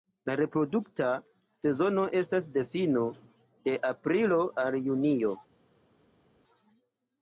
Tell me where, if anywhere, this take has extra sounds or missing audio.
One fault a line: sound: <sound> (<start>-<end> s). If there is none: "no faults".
no faults